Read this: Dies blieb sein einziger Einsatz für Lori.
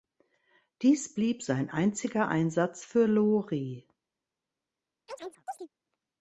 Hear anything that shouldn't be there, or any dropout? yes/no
yes